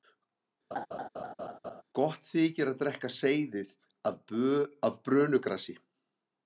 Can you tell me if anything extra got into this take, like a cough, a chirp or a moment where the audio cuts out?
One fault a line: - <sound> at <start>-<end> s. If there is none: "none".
- laugh at 0.7-1.8 s